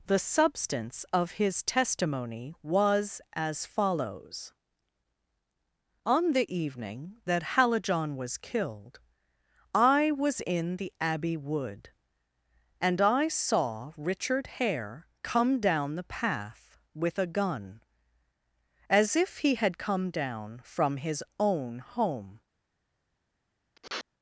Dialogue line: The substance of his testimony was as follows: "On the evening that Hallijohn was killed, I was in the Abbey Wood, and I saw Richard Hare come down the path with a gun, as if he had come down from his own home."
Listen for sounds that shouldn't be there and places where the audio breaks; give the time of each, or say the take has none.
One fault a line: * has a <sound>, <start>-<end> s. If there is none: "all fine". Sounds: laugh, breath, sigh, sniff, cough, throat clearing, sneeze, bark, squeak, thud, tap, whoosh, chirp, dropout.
* has a sniff, 23.7-24.0 s